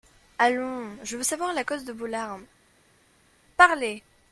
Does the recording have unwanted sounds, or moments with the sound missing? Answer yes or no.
no